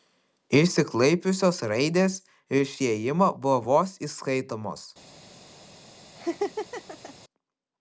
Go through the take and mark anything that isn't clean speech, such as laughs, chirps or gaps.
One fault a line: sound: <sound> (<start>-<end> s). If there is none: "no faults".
sound: laugh (6.2-7.1 s)